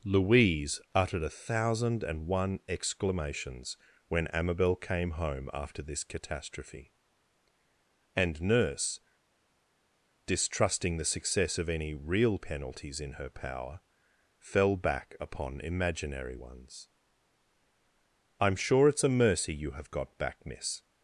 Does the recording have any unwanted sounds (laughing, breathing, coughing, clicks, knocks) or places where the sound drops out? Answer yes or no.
no